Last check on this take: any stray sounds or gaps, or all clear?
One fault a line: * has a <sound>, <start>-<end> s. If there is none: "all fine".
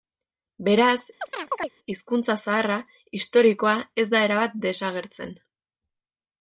* has a chirp, 1.2-1.7 s